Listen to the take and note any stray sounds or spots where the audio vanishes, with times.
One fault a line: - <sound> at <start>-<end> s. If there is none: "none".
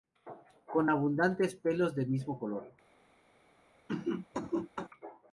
- cough at 3.9-4.9 s